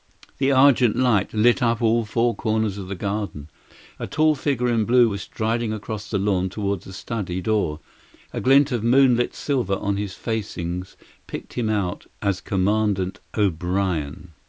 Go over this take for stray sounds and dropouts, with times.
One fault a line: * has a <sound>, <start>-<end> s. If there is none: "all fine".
all fine